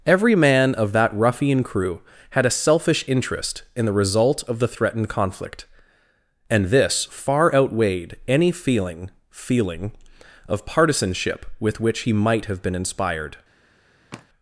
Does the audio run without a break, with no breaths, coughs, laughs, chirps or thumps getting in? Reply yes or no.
no